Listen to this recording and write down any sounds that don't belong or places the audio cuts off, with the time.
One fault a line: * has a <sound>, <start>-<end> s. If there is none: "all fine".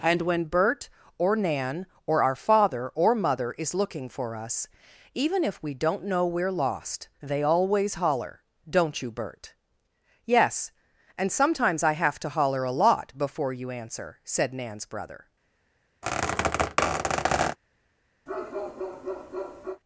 * has a squeak, 16.0-17.6 s
* has a bark, 18.3-19.8 s